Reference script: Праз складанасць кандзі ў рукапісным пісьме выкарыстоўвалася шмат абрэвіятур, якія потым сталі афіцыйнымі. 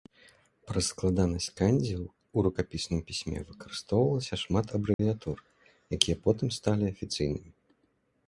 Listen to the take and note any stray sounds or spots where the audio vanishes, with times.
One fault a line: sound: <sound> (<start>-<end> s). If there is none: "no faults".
sound: dropout (4.9-5.0 s)